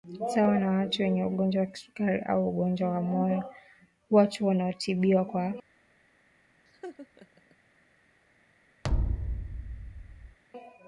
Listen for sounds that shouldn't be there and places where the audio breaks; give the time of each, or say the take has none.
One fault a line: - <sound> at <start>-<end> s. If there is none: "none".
- laugh at 6.7-7.6 s
- thud at 8.8-10.4 s